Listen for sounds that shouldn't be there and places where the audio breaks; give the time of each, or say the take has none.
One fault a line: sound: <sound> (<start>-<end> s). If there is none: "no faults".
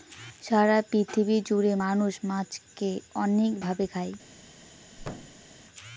sound: thud (5.0-5.5 s)